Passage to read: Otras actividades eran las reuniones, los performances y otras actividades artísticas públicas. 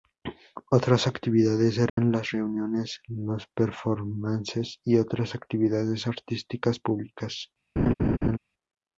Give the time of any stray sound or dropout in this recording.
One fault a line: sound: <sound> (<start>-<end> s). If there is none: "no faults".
sound: dropout (1.9-2.0 s)
sound: laugh (7.8-8.4 s)